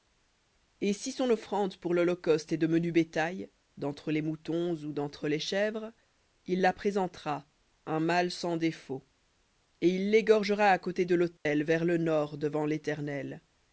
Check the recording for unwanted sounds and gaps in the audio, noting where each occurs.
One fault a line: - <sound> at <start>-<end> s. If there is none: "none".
- dropout at 11.4-11.5 s